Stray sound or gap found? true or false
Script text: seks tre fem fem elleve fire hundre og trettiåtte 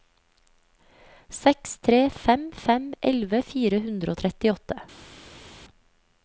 false